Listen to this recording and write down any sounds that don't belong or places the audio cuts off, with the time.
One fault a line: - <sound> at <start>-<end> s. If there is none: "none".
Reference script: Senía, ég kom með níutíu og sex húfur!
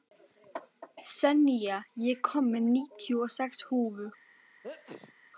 - sneeze at 4.6-5.1 s